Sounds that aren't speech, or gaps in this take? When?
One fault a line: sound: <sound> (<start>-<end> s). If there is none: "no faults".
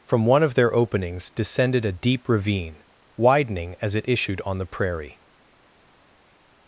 no faults